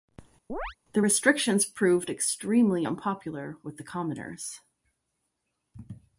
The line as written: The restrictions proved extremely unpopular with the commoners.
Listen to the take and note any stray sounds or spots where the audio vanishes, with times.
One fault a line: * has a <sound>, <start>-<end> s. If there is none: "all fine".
* has a chirp, 0.5-0.8 s